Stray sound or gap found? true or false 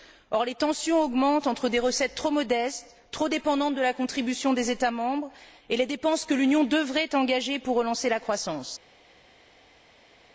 false